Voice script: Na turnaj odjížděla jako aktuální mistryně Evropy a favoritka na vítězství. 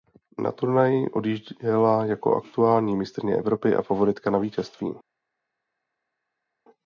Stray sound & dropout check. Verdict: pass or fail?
pass